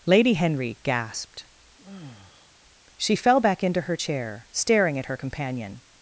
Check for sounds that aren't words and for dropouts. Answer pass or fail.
fail